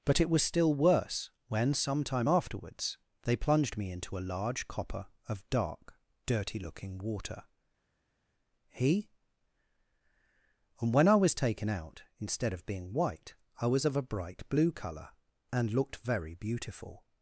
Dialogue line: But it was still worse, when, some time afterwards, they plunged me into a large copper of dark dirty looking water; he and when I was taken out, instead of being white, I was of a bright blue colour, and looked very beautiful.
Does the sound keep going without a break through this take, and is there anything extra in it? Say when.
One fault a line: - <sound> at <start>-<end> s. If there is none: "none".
none